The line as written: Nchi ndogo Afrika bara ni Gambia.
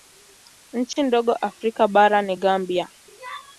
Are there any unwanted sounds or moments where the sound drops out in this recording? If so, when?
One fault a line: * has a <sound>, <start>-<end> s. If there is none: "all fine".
* has a dropout, 0.9-1.0 s